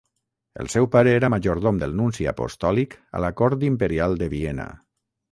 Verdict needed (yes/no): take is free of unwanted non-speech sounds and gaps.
yes